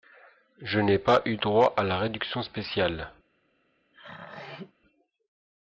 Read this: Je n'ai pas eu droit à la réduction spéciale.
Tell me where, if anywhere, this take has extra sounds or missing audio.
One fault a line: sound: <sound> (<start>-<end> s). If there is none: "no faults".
sound: throat clearing (3.9-4.7 s)